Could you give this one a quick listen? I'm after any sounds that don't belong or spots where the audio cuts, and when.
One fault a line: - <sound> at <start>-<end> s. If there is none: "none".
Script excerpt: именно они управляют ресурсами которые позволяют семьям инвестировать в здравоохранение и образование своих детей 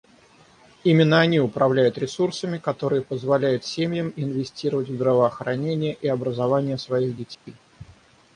- dropout at 7.3-7.5 s